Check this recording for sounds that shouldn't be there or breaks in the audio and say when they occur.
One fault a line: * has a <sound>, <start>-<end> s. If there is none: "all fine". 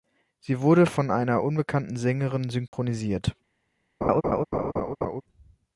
* has a dropout, 2.7-2.7 s
* has a laugh, 4.0-5.2 s